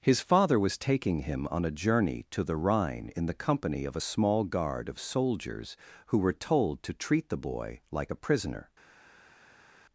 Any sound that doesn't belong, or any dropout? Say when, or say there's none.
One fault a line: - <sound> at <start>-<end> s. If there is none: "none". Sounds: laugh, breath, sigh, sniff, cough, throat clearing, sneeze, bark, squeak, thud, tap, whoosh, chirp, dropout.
none